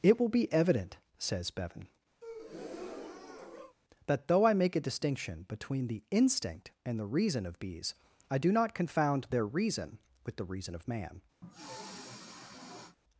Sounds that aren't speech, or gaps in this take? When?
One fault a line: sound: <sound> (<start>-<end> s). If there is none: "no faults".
sound: breath (2.2-3.8 s)
sound: sniff (11.4-13.0 s)